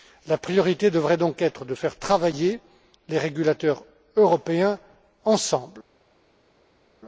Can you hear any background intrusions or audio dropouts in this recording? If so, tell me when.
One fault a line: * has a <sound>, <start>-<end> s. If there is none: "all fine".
all fine